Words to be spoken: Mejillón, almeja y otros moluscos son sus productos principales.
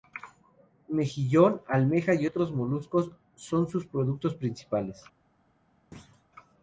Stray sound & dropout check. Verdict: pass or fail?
fail